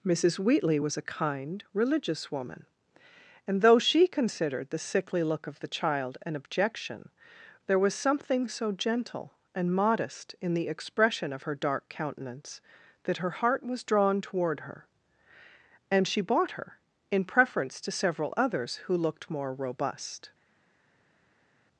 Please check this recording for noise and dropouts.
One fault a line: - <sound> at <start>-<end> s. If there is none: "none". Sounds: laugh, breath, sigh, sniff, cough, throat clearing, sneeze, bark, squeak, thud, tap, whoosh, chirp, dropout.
none